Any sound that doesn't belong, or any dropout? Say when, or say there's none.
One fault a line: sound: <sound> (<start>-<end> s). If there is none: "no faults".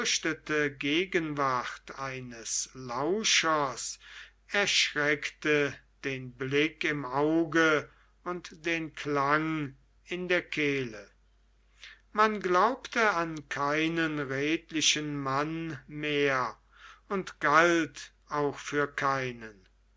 no faults